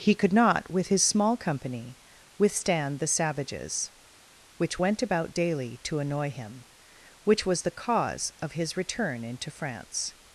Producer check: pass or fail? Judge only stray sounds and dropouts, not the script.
pass